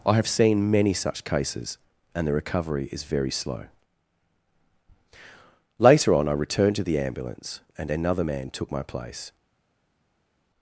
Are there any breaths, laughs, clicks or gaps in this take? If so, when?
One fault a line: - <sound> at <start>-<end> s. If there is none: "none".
none